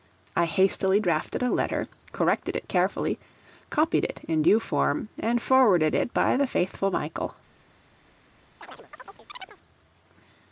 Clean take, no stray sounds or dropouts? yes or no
no